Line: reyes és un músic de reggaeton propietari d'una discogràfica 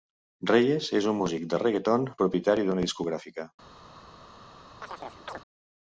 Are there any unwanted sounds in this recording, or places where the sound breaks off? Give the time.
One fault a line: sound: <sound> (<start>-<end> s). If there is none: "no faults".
sound: chirp (4.8-5.4 s)